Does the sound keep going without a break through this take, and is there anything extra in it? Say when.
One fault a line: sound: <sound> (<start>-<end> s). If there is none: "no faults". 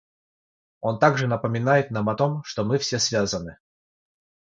no faults